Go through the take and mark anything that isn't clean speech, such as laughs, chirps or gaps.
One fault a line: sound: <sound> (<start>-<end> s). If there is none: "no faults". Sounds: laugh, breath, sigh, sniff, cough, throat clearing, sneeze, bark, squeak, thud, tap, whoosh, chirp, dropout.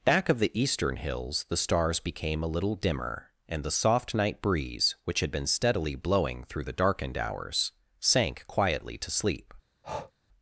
sound: breath (9.8-10.1 s)